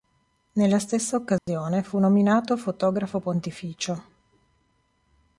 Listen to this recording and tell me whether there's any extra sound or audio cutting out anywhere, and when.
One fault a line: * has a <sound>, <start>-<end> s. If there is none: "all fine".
* has a dropout, 1.4-1.5 s